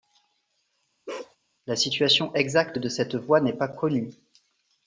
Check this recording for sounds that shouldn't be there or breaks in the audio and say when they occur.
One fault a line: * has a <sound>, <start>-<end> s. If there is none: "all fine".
* has a bark, 1.1-1.4 s